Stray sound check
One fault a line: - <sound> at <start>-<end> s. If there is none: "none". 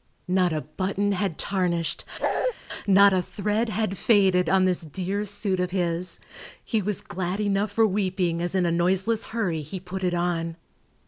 - bark at 2.2-2.5 s